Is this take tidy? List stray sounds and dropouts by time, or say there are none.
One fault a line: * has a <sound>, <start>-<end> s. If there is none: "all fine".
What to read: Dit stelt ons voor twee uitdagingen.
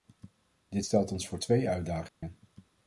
* has a dropout, 2.1-2.2 s